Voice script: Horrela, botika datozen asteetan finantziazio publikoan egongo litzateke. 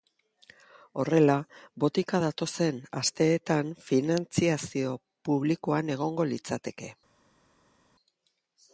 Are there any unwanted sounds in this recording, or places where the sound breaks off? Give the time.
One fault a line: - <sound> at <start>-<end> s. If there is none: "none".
none